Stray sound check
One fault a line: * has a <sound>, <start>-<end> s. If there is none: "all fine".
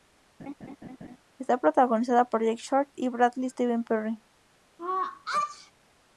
* has a laugh, 0.4-1.2 s
* has a sneeze, 4.8-5.7 s